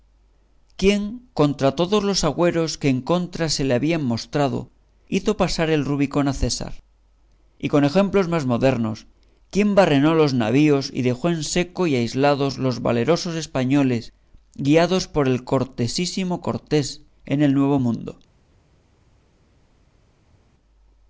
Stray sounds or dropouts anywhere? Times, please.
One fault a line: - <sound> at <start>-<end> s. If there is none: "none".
none